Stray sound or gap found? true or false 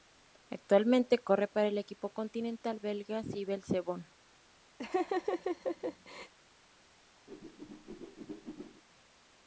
true